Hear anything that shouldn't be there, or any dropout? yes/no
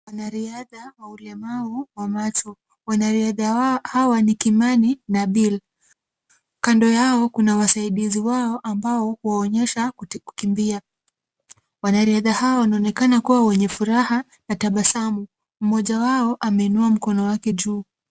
no